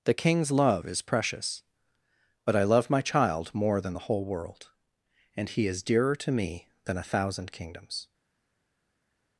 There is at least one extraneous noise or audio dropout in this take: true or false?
false